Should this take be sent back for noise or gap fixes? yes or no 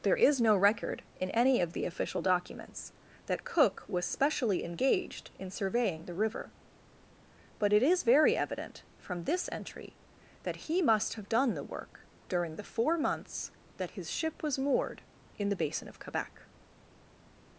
no